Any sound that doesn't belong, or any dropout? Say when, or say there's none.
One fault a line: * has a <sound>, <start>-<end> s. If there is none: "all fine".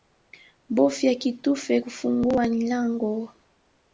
all fine